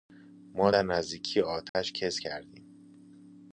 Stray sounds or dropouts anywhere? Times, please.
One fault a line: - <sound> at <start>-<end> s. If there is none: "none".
- dropout at 1.7-1.7 s